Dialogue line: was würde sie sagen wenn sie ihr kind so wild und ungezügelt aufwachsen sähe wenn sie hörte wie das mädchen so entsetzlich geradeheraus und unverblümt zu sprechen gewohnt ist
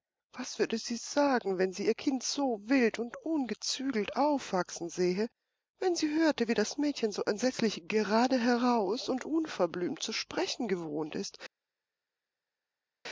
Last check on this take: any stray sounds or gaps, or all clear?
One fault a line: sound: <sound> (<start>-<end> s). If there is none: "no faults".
no faults